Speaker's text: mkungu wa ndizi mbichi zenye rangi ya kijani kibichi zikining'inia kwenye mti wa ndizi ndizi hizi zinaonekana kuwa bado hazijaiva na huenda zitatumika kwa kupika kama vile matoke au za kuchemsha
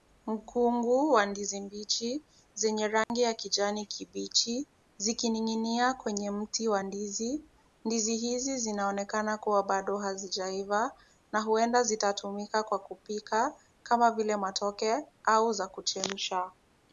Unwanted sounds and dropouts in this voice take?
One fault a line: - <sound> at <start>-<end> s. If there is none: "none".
- dropout at 3.0-3.1 s